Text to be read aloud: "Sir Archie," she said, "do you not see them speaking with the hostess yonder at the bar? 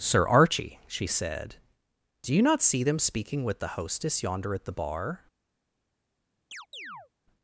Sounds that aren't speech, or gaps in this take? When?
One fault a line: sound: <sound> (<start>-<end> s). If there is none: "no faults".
sound: chirp (6.5-7.1 s)